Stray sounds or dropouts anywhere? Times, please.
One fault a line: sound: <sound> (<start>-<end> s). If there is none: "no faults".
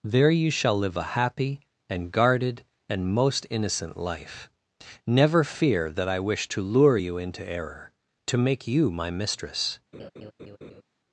sound: laugh (9.9-10.8 s)